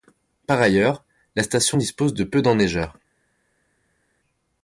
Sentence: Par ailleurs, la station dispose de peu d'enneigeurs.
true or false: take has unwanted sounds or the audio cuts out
false